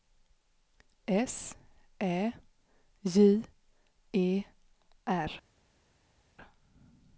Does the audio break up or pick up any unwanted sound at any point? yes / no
no